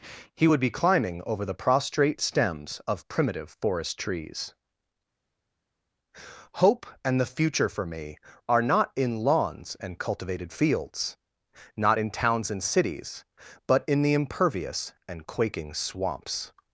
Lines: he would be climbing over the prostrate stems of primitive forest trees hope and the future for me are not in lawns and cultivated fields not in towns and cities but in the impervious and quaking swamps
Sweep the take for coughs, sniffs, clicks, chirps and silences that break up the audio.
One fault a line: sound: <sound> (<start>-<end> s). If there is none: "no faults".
no faults